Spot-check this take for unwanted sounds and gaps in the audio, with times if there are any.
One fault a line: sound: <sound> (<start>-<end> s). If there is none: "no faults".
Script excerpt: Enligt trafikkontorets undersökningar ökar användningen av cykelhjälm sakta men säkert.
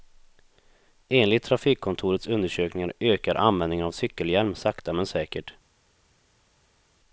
no faults